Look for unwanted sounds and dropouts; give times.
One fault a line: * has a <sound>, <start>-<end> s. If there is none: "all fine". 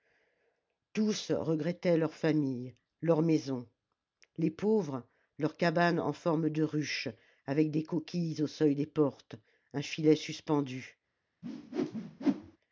* has a whoosh, 11.4-12.6 s